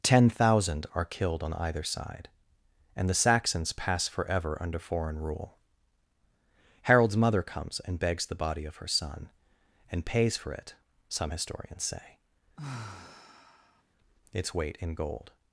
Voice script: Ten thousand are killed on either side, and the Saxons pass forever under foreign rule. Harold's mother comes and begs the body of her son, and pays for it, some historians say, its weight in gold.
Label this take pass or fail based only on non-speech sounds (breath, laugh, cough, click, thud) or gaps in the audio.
fail